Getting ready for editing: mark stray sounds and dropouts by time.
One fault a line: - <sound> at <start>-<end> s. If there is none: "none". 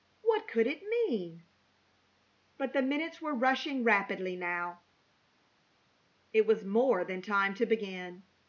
none